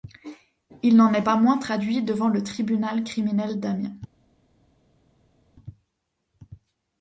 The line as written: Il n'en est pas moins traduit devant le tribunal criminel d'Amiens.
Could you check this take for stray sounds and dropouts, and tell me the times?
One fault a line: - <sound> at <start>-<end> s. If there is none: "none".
none